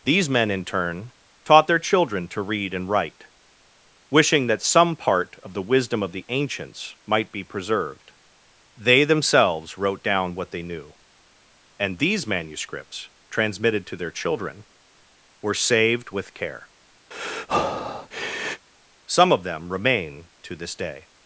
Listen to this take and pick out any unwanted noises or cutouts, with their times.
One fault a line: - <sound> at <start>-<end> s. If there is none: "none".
- breath at 17.1-18.7 s